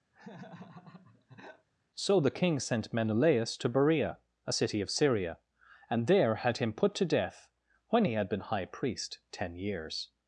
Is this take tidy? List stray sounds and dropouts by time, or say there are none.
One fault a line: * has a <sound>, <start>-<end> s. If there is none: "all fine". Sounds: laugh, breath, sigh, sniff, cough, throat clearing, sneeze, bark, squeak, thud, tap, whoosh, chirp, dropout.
* has a laugh, 0.1-1.7 s